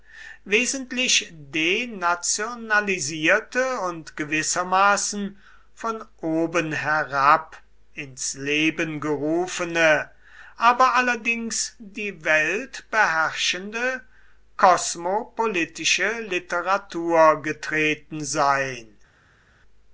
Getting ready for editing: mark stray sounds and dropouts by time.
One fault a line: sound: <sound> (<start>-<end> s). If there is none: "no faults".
no faults